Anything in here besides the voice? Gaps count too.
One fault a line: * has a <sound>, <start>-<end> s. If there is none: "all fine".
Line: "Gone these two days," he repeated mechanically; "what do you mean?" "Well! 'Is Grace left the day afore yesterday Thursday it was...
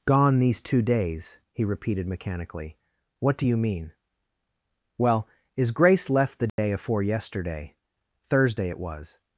* has a dropout, 6.5-6.6 s